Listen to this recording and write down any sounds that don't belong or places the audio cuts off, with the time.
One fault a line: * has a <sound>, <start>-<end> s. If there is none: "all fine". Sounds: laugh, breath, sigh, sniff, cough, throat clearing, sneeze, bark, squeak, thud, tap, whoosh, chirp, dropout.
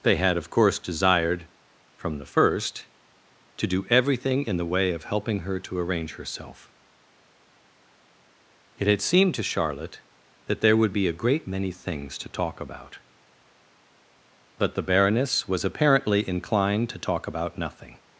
all fine